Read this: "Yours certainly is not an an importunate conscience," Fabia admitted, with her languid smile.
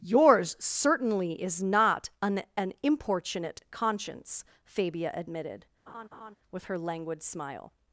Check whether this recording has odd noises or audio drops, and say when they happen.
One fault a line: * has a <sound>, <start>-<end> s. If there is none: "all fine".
* has a laugh, 5.9-6.4 s